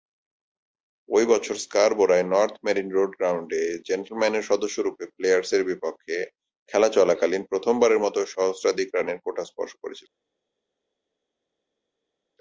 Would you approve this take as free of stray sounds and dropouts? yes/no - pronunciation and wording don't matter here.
yes